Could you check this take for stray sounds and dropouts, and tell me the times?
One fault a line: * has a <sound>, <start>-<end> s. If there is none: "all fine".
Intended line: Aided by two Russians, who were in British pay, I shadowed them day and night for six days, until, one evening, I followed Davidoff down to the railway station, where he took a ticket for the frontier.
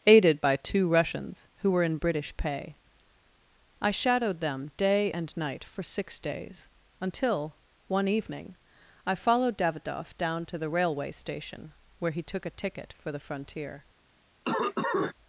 * has a cough, 14.4-15.1 s